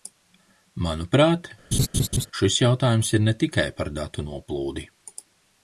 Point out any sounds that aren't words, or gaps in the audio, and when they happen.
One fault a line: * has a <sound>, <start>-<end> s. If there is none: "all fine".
* has a laugh, 1.7-2.3 s